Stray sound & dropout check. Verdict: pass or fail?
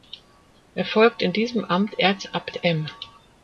pass